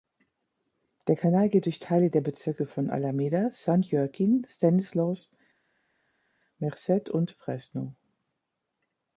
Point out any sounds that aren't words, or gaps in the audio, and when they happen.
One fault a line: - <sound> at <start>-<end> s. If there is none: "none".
none